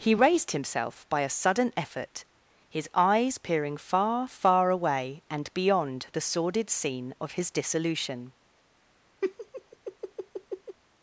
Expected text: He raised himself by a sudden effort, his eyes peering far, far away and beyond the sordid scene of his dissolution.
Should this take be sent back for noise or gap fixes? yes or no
yes